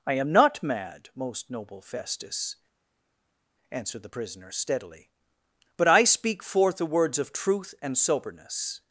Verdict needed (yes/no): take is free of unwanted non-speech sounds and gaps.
yes